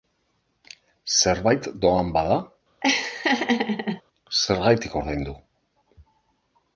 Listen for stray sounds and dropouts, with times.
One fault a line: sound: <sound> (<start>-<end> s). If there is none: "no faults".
sound: laugh (2.8-4.0 s)